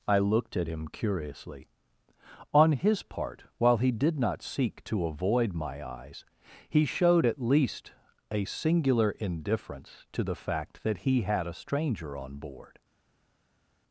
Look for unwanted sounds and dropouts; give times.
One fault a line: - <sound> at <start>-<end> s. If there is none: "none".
none